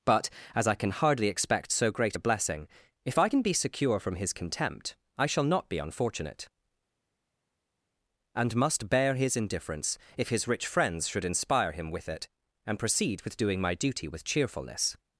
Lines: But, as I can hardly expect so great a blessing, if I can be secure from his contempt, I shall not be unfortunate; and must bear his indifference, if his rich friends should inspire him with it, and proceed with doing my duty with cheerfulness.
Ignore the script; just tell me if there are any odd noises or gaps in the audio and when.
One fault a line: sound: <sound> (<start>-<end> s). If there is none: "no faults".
no faults